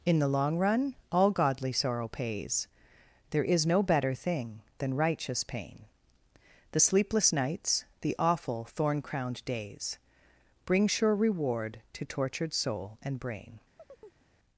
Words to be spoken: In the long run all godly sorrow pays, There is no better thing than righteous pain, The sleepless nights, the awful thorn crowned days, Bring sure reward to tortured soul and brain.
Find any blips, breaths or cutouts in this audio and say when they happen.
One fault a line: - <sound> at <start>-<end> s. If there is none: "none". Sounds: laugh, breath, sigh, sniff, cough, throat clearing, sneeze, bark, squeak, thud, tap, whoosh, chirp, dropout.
- chirp at 13.8-14.3 s